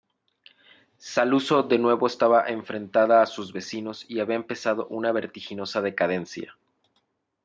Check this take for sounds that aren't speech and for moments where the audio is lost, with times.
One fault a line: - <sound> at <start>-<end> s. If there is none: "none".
none